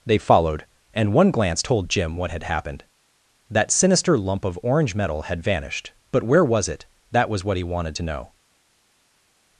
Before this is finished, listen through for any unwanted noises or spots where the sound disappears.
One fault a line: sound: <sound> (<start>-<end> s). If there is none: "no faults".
no faults